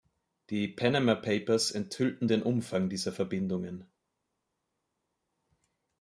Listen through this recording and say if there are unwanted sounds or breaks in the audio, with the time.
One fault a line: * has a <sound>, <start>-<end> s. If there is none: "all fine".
all fine